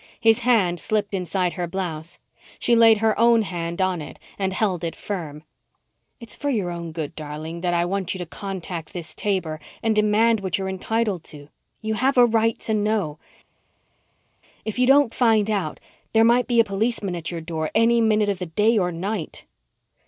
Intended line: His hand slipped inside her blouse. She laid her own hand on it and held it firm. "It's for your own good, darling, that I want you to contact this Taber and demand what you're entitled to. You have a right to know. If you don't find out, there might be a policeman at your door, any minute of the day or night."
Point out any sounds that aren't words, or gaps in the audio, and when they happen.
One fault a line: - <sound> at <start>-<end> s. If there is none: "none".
none